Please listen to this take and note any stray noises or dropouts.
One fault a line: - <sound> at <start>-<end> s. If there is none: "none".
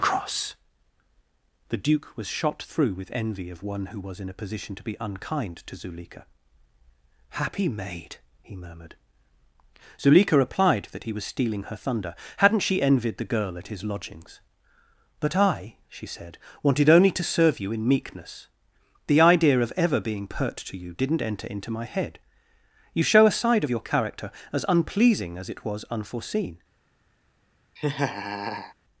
- laugh at 27.8-28.7 s